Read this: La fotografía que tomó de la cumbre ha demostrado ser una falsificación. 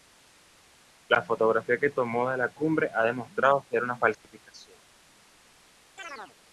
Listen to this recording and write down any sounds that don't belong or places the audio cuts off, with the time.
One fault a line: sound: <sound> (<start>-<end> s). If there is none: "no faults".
sound: dropout (4.1-4.2 s)
sound: chirp (6.0-6.4 s)